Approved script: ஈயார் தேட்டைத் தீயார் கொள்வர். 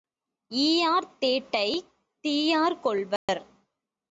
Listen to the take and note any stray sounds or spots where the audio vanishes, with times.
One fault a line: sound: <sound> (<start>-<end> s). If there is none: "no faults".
sound: dropout (3.2-3.3 s)